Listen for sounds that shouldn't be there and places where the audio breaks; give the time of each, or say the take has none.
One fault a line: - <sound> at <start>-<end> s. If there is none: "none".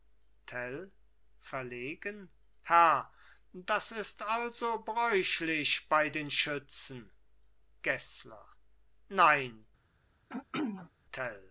- throat clearing at 10.3-10.9 s